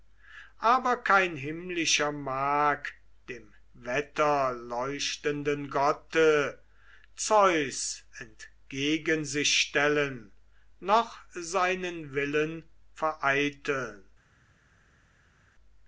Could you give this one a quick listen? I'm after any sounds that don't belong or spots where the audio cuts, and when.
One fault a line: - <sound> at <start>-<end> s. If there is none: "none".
none